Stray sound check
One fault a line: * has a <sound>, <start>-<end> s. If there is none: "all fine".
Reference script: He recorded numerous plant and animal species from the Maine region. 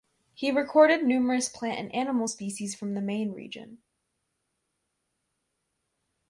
all fine